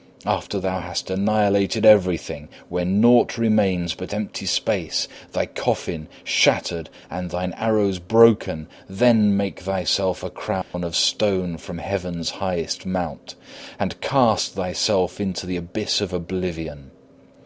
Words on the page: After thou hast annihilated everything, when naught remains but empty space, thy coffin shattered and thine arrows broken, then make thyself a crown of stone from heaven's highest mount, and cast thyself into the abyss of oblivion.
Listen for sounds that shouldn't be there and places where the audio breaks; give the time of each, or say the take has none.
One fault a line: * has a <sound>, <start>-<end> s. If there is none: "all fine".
* has a dropout, 10.6-10.7 s